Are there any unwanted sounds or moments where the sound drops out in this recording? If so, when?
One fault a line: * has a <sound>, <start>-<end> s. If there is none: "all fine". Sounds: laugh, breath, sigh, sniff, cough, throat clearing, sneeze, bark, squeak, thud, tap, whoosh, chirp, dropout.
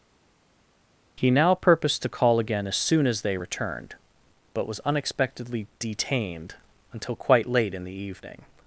all fine